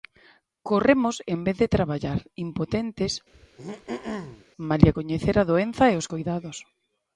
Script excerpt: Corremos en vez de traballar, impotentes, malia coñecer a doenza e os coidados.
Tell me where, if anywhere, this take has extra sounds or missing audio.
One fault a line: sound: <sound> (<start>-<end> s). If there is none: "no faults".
sound: throat clearing (3.3-4.4 s)